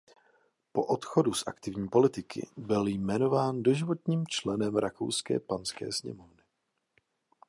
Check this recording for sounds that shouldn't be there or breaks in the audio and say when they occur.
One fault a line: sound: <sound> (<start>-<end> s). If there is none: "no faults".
no faults